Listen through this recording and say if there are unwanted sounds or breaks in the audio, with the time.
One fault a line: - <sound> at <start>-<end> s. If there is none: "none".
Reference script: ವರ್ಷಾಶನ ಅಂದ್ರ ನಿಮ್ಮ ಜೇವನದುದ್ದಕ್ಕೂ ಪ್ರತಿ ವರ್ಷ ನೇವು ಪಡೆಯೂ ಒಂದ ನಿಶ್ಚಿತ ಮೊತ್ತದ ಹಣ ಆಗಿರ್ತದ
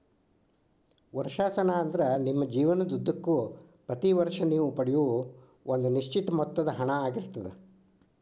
none